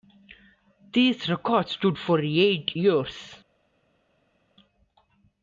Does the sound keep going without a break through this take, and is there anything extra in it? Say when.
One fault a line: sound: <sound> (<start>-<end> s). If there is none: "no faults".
no faults